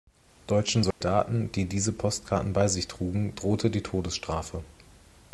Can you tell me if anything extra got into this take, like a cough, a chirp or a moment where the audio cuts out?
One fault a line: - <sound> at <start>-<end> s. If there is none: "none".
- dropout at 0.9-1.0 s